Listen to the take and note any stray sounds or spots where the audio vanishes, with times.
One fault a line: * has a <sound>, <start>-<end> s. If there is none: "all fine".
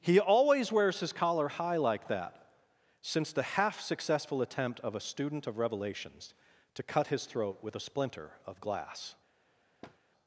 * has a thud, 9.8-10.0 s